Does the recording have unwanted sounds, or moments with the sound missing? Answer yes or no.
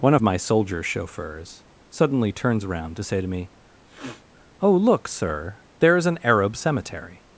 yes